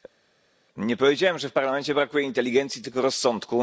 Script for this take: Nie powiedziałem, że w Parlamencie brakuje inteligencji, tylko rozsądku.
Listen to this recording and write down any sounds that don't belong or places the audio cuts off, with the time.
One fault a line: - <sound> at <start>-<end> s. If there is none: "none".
none